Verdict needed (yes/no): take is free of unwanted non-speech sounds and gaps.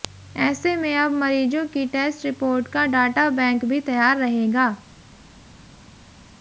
yes